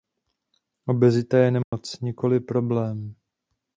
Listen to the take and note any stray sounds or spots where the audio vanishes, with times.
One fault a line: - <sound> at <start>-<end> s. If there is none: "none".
- dropout at 1.6-1.7 s